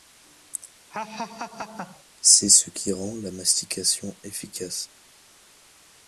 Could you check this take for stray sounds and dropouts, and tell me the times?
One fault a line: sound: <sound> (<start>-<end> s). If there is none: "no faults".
sound: laugh (0.9-2.0 s)